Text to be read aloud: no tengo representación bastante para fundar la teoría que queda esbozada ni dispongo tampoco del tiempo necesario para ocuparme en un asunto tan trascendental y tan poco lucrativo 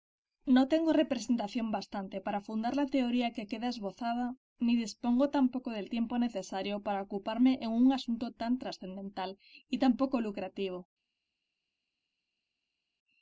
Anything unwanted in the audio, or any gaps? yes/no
no